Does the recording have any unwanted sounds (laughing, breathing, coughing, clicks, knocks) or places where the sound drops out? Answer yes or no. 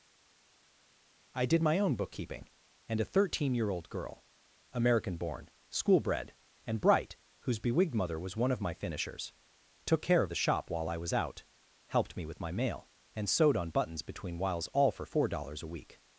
no